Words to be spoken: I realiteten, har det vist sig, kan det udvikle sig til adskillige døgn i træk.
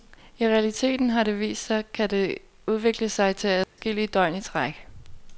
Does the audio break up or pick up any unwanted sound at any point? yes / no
yes